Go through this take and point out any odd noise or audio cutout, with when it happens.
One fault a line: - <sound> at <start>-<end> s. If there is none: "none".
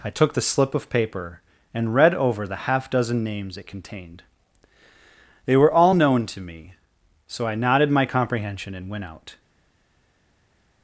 none